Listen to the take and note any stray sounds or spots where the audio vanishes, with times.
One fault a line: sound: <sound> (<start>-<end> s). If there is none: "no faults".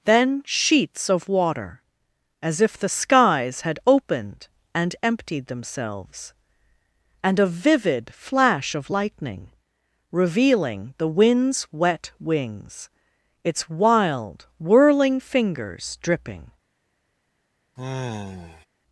sound: sigh (17.8-18.7 s)